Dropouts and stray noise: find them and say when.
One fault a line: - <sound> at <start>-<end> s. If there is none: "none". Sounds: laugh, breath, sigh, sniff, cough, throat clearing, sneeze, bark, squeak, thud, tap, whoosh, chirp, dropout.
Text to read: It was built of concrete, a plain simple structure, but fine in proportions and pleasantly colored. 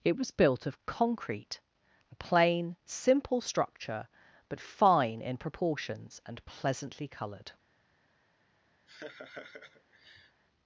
- laugh at 8.9-10.4 s